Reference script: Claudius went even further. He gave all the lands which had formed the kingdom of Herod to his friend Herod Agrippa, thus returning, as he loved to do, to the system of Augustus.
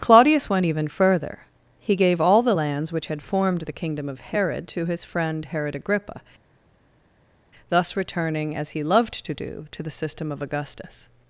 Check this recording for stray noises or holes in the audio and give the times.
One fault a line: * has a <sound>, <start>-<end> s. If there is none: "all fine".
all fine